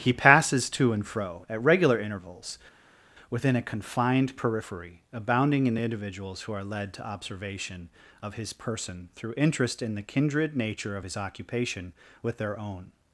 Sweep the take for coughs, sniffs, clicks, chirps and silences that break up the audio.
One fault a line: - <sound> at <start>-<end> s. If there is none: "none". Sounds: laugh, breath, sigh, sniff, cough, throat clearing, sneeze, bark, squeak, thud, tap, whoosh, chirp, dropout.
none